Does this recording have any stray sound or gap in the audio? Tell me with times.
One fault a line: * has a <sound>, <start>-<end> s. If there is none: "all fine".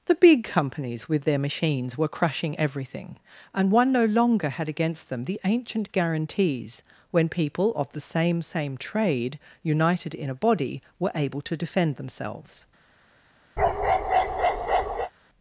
* has a bark, 13.6-15.1 s